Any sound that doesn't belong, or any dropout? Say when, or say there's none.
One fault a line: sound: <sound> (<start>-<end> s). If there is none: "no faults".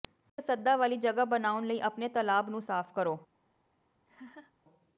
sound: laugh (4.1-4.5 s)